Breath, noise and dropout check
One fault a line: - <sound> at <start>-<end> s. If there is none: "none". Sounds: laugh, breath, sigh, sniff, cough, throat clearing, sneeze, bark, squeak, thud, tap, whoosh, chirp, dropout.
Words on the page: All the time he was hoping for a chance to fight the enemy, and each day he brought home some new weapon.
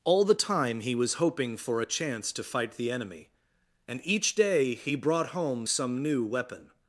none